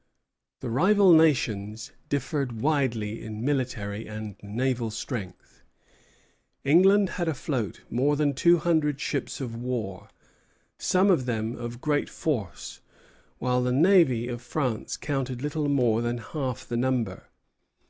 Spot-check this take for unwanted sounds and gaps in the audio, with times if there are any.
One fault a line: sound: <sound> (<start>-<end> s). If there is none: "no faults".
no faults